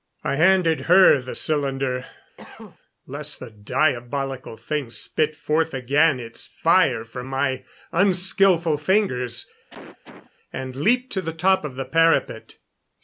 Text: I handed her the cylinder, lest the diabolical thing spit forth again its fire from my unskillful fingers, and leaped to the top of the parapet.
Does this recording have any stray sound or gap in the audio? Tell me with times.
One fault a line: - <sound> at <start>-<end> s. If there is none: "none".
- cough at 2.4-2.8 s
- cough at 9.7-10.3 s